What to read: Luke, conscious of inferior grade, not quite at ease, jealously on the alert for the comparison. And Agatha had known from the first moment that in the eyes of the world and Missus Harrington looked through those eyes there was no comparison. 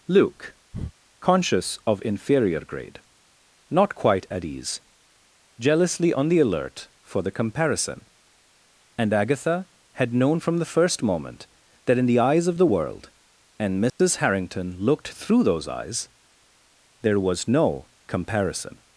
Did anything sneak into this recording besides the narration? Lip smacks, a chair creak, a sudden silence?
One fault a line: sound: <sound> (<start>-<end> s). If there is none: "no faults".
sound: breath (0.7-0.9 s)
sound: dropout (13.9-14.0 s)